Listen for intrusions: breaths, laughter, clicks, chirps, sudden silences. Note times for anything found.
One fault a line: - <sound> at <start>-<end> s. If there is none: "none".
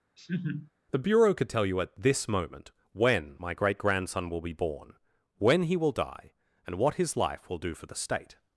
- laugh at 0.2-0.7 s